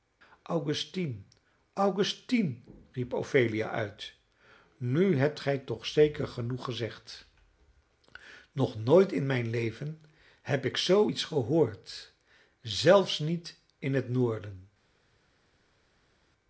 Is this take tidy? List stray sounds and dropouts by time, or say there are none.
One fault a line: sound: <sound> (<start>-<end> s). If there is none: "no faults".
no faults